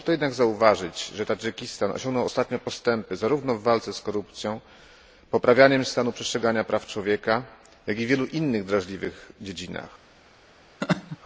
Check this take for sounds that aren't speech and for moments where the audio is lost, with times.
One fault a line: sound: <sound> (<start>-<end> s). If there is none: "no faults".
sound: laugh (10.8-11.2 s)